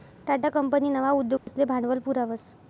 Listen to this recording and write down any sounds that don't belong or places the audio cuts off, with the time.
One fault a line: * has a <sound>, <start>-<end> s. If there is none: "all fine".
* has a dropout, 1.4-1.5 s